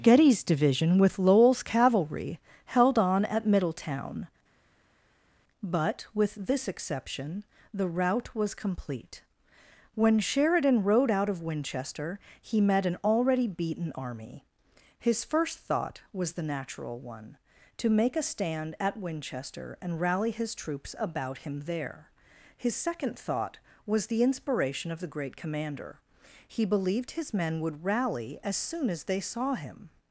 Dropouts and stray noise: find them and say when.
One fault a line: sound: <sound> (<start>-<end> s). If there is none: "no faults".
no faults